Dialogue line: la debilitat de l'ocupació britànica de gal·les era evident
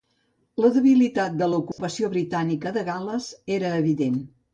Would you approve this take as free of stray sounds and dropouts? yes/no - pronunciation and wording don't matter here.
no